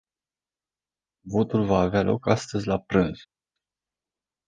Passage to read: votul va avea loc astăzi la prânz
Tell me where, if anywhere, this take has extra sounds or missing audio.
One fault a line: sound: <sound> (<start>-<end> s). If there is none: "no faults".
no faults